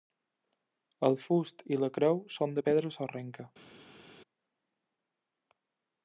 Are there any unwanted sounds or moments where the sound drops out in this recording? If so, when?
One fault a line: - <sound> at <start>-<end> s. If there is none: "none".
none